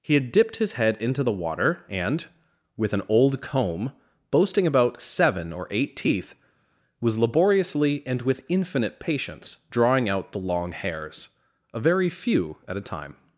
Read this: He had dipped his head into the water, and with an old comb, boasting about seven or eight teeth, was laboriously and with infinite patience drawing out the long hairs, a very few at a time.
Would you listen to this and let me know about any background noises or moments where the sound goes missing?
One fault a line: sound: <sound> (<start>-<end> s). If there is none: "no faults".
no faults